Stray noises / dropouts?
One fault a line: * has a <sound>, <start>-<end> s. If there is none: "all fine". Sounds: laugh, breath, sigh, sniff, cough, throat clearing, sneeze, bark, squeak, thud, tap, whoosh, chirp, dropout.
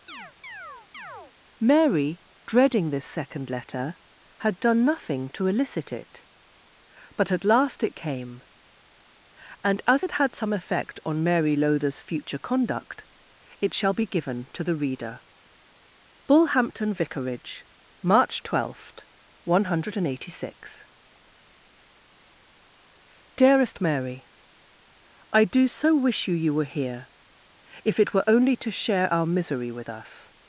* has a chirp, 0.1-1.3 s